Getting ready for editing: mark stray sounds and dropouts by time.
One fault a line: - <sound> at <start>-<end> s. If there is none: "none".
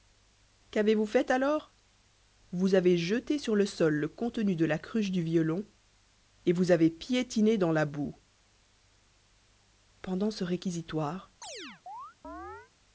- chirp at 11.4-12.7 s